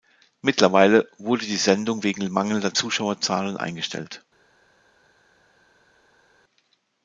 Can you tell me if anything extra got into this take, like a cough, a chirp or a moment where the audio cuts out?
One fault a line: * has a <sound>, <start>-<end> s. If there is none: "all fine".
all fine